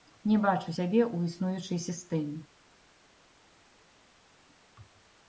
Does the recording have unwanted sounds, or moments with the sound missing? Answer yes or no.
no